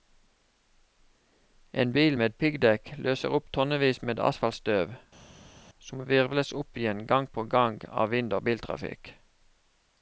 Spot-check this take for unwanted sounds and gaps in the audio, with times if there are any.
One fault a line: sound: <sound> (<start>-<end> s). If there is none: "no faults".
no faults